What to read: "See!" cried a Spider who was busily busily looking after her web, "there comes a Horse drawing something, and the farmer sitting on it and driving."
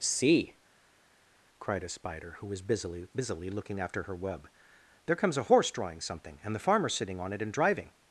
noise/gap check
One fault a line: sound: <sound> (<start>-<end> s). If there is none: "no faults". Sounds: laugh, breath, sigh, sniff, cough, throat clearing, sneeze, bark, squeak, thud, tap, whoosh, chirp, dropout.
no faults